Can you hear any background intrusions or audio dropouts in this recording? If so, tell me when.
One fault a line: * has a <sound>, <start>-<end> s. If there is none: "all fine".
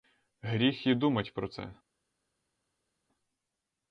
all fine